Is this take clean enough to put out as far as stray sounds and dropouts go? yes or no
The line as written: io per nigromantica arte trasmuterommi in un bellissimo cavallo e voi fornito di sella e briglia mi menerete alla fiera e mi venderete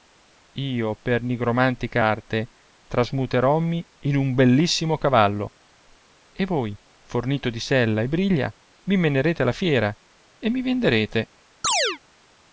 no